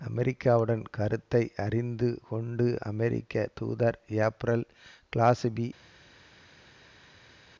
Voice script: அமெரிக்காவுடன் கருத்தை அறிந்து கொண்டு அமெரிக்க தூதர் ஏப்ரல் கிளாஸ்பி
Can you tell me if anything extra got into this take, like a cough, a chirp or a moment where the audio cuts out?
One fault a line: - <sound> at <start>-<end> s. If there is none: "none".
none